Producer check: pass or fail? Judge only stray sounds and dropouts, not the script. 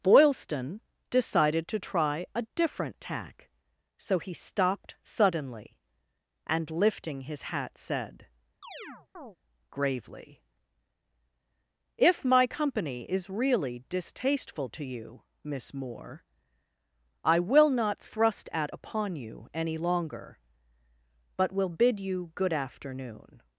fail